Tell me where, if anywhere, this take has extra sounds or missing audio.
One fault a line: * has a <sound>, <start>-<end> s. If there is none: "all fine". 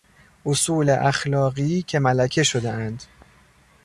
all fine